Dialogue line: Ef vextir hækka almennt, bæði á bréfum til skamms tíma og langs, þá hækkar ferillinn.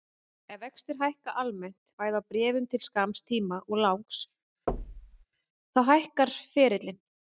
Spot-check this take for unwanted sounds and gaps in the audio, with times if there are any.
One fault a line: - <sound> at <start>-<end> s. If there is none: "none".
- thud at 4.7-5.3 s